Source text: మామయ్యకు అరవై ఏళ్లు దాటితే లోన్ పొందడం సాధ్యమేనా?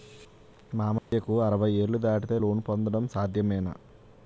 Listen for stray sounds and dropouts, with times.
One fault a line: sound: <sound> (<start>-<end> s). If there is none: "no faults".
sound: dropout (1.0-1.1 s)